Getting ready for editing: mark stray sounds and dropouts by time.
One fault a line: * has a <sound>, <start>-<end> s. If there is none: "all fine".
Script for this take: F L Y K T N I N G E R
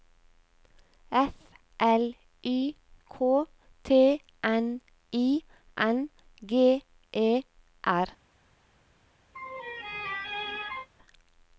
* has a laugh, 9.3-10.9 s